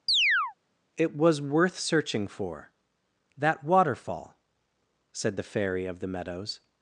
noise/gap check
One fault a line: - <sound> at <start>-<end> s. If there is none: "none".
- chirp at 0.1-0.5 s